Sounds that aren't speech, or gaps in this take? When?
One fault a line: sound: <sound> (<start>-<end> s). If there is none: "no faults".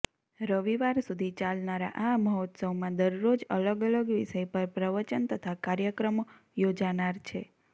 no faults